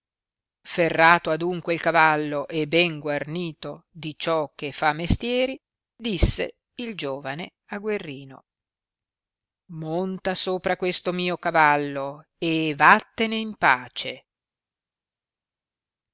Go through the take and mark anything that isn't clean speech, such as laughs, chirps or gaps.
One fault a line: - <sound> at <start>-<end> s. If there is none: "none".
none